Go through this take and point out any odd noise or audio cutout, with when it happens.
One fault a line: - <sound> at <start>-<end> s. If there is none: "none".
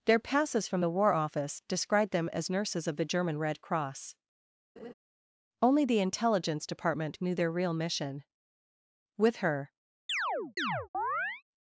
- laugh at 4.8-4.9 s
- chirp at 10.1-11.4 s